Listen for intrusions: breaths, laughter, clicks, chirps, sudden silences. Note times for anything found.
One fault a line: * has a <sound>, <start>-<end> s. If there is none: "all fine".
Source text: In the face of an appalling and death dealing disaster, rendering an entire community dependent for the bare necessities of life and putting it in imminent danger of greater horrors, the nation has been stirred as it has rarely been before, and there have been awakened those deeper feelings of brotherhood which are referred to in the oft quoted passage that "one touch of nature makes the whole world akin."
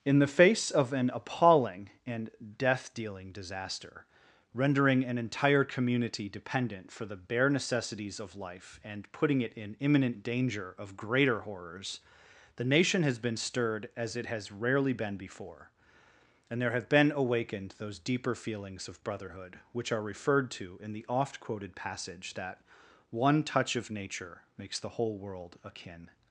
all fine